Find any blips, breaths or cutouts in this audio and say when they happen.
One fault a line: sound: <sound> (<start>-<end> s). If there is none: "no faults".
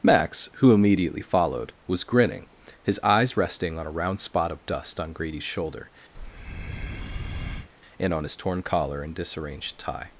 sound: breath (6.1-7.7 s)